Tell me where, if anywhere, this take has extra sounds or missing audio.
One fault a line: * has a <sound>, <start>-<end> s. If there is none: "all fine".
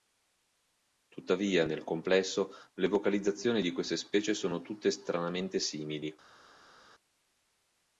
all fine